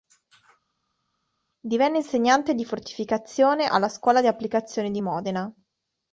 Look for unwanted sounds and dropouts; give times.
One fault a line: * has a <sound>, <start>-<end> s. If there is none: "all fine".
all fine